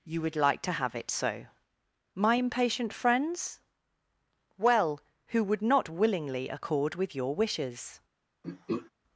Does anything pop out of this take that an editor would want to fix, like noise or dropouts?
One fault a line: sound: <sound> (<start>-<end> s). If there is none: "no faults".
sound: throat clearing (8.4-8.9 s)